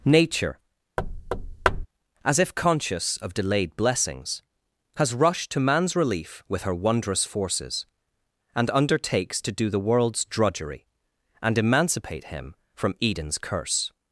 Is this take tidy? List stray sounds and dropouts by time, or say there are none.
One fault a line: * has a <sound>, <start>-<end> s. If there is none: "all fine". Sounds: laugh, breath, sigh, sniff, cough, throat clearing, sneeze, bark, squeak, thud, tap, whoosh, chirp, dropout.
* has a thud, 1.0-1.9 s